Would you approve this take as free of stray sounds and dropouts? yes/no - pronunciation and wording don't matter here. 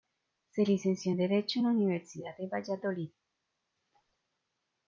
yes